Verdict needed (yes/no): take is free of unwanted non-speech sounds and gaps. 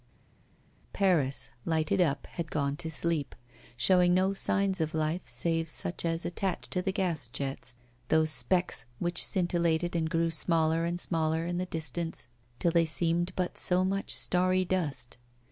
yes